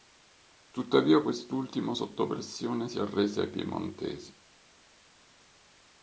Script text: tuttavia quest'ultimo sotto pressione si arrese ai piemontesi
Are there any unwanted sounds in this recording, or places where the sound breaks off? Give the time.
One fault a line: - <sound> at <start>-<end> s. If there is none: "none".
none